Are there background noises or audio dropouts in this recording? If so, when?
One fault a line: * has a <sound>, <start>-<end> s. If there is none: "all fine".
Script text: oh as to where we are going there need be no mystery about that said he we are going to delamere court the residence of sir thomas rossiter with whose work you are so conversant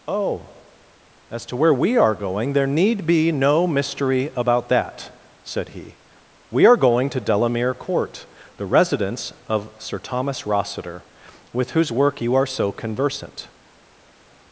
all fine